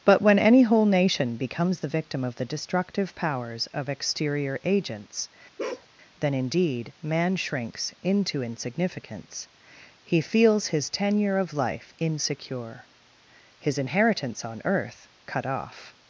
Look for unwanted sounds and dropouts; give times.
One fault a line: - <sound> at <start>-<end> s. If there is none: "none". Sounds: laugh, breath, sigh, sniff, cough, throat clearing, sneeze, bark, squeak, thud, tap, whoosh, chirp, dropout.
- bark at 5.6-5.9 s